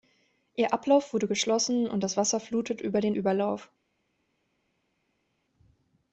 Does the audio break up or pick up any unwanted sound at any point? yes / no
no